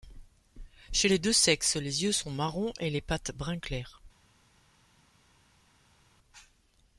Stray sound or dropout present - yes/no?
no